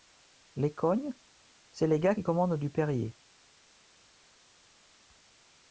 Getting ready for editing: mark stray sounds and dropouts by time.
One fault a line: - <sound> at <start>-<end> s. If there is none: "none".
none